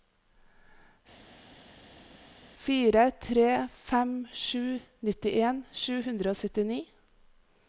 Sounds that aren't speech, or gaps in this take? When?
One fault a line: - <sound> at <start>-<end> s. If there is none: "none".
none